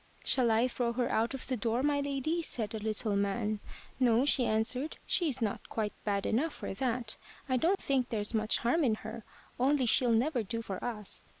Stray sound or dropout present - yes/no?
yes